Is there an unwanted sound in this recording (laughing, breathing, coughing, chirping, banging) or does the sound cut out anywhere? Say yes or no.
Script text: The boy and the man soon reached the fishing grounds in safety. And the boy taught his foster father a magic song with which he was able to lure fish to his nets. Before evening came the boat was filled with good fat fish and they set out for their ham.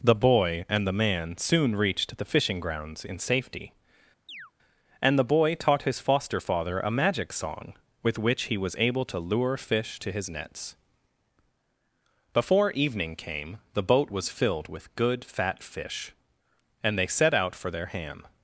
yes